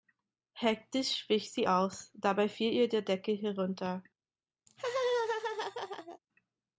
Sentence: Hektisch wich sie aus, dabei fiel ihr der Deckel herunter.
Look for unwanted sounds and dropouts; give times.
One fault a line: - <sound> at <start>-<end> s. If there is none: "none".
- laugh at 4.7-6.2 s